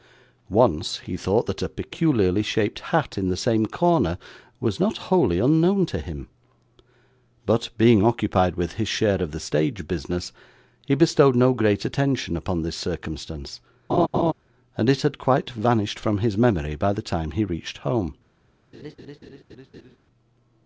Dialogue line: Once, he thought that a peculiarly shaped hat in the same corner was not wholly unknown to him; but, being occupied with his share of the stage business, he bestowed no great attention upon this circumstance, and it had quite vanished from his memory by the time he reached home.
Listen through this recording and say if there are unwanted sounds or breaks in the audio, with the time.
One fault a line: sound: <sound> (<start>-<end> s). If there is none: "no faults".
sound: laugh (13.9-14.3 s)
sound: laugh (18.7-20.0 s)